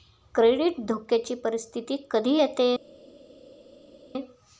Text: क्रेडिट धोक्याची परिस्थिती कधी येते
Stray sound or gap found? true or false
false